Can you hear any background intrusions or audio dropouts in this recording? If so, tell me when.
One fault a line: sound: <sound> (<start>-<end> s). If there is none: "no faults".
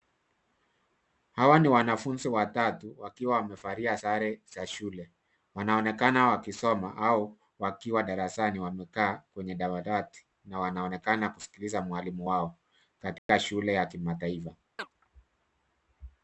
sound: dropout (13.2-13.3 s)
sound: chirp (14.8-14.9 s)